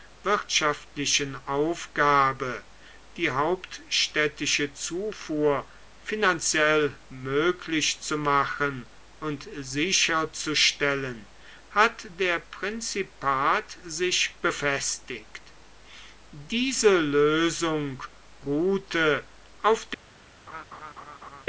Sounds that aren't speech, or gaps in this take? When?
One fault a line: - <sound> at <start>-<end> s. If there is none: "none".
- laugh at 20.5-21.4 s